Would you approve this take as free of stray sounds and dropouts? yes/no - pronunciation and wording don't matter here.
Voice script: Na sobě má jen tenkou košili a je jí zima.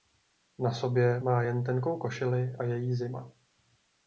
yes